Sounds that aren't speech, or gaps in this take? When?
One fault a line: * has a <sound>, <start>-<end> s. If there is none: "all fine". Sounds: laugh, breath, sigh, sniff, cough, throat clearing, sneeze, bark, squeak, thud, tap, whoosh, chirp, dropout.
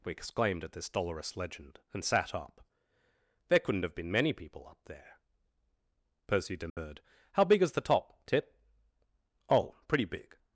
* has a dropout, 6.7-6.8 s